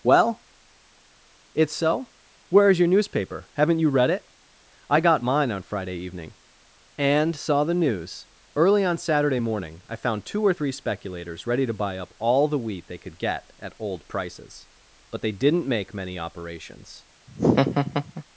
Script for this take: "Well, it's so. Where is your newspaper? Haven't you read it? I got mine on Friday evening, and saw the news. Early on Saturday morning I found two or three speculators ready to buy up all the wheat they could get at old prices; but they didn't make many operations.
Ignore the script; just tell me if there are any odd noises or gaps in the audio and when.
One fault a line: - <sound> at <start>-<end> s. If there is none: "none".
- laugh at 17.3-18.2 s